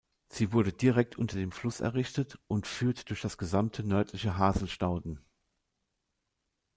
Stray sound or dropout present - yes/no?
no